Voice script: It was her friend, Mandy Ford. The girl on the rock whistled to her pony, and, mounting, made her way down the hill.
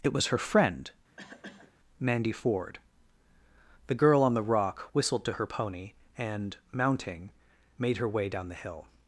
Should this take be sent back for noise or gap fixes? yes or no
yes